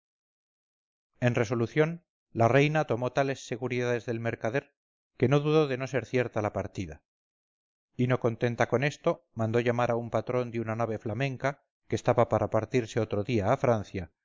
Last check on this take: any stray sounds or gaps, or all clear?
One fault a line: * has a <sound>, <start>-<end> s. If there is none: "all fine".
all fine